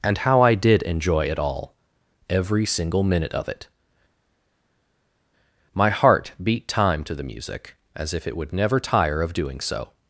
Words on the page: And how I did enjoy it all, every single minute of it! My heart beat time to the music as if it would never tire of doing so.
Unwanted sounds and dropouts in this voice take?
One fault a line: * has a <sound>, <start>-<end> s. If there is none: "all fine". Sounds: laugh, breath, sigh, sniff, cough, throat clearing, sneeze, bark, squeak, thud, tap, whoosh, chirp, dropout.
all fine